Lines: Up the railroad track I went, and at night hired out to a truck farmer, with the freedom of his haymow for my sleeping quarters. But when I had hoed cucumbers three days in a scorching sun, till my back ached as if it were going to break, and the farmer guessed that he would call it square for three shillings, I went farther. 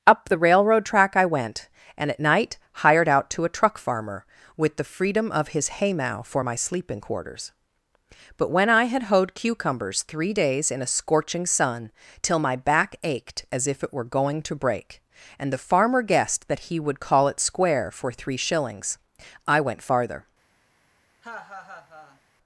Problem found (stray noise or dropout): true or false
true